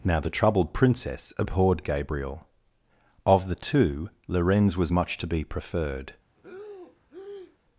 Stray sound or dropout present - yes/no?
yes